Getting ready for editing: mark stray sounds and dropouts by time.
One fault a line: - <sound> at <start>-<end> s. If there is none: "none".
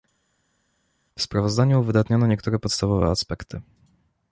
none